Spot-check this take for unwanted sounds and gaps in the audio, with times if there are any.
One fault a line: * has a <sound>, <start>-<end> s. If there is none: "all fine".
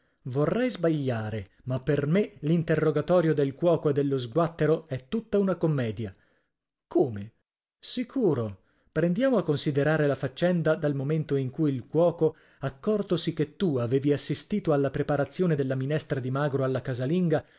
all fine